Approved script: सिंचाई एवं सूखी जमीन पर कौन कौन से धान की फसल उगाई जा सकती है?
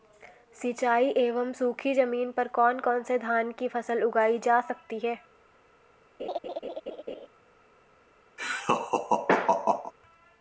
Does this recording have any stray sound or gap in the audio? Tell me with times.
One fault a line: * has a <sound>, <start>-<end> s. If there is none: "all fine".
* has a laugh, 6.2-7.3 s
* has a laugh, 8.4-9.9 s